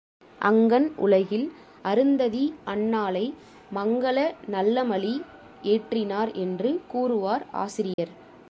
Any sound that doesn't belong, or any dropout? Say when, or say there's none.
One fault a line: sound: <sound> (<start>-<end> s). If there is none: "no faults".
sound: dropout (7.9-8.0 s)